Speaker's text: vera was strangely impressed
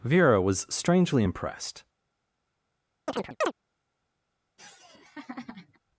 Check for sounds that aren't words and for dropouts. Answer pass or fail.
fail